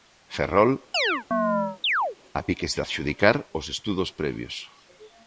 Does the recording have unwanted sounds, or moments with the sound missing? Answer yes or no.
yes